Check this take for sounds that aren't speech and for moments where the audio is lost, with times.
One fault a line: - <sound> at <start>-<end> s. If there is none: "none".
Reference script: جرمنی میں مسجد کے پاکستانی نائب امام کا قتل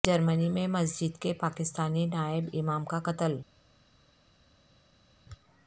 none